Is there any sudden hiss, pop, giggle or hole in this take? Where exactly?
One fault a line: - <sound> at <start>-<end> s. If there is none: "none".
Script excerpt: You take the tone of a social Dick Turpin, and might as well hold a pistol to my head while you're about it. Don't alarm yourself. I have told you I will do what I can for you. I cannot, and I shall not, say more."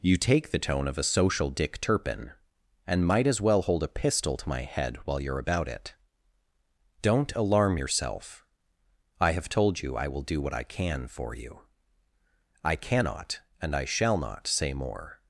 none